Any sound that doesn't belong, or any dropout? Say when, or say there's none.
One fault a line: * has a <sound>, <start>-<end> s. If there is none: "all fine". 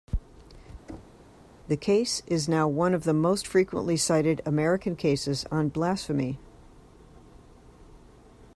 * has a thud, 0.9-1.3 s